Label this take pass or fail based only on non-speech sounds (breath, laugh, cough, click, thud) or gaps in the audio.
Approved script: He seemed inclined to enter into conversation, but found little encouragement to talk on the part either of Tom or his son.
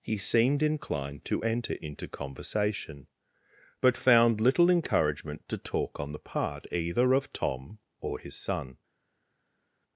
pass